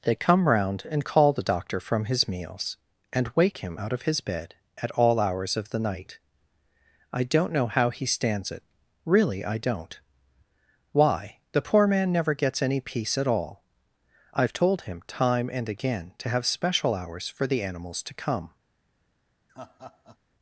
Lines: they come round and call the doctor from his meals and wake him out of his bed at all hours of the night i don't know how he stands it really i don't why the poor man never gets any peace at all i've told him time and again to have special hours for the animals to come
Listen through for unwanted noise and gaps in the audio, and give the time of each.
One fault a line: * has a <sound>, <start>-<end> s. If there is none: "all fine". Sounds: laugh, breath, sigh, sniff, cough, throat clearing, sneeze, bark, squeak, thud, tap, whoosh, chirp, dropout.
* has a laugh, 19.5-20.2 s